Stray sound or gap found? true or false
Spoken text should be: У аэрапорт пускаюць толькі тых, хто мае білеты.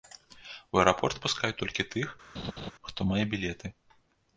true